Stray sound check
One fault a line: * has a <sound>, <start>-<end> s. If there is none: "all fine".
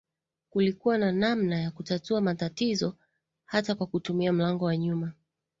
all fine